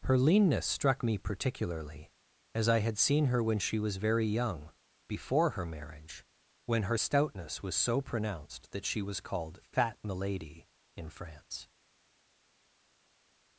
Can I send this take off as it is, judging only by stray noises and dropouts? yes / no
yes